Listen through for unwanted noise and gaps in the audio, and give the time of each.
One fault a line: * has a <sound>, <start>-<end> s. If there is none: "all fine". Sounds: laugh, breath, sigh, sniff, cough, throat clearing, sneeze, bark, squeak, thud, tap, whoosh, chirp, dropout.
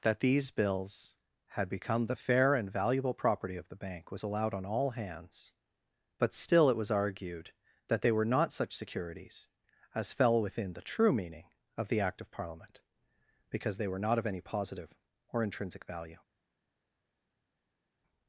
all fine